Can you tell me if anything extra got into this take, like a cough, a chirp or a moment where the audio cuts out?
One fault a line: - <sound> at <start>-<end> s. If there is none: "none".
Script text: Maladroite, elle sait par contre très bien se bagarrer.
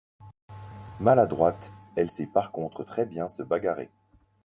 none